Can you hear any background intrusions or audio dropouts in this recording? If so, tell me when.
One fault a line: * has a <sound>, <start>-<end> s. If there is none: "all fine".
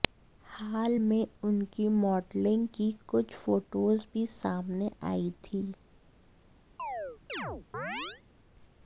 * has a chirp, 6.8-8.2 s